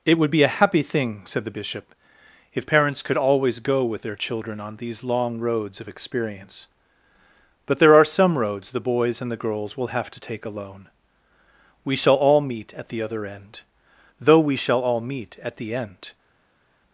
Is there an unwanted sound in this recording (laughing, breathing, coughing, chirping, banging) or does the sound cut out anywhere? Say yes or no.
no